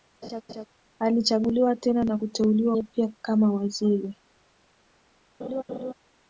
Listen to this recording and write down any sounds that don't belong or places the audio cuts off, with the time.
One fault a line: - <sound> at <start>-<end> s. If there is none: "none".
- laugh at 0.2-0.7 s
- laugh at 5.4-5.9 s